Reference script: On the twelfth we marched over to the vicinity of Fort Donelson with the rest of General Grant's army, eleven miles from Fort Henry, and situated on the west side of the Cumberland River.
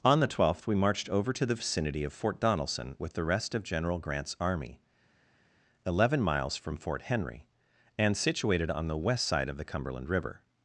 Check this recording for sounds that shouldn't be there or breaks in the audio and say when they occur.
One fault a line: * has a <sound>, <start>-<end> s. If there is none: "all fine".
all fine